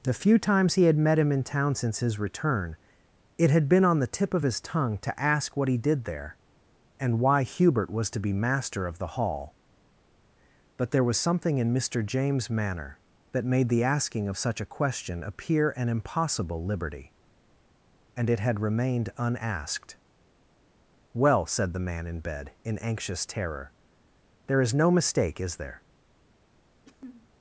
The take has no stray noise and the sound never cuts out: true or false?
false